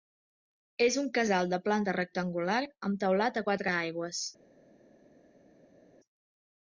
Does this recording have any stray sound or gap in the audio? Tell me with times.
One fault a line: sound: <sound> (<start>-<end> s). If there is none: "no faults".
no faults